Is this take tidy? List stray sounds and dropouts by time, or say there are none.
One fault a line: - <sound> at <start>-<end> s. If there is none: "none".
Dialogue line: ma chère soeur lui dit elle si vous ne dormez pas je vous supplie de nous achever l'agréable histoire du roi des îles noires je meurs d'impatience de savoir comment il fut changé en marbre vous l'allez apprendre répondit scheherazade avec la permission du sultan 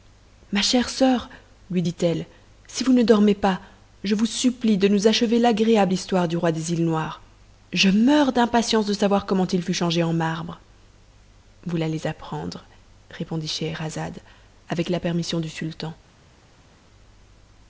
none